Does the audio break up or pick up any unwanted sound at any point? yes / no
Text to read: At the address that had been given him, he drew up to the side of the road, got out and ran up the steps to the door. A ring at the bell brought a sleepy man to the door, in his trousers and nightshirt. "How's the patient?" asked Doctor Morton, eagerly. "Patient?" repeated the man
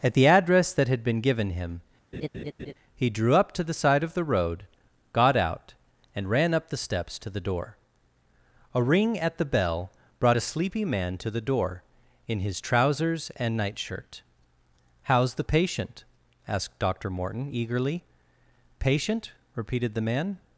yes